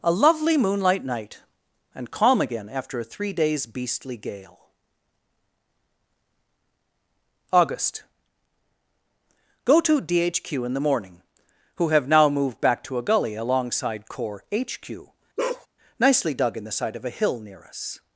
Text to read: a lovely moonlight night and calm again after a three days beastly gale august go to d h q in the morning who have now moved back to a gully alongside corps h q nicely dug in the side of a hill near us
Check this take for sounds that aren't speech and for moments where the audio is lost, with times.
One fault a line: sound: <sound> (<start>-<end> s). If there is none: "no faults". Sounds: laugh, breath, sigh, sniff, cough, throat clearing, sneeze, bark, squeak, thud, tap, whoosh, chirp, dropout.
sound: bark (15.4-15.7 s)